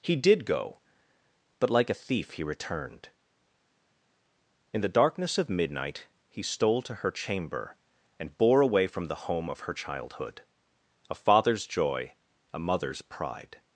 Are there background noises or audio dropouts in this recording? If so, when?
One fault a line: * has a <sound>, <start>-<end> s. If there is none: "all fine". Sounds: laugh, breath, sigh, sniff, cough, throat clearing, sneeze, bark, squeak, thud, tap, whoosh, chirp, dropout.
all fine